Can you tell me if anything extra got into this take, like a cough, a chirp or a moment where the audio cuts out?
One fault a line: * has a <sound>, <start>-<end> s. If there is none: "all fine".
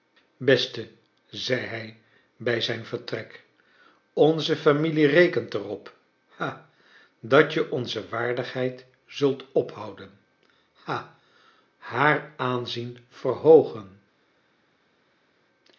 all fine